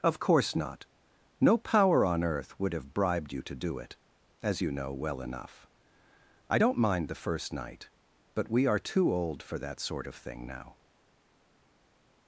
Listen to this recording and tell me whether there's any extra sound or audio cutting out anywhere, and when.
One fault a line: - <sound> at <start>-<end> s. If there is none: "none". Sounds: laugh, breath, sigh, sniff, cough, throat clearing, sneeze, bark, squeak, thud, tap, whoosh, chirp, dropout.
none